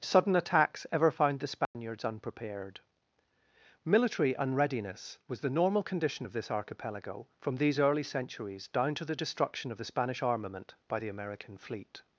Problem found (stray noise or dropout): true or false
true